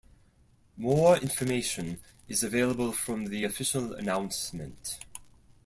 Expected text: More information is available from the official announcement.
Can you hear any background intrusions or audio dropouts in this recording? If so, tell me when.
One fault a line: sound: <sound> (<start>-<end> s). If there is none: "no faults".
no faults